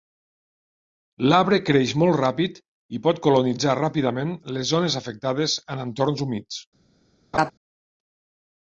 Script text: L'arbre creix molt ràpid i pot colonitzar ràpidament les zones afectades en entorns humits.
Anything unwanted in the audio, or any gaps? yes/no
yes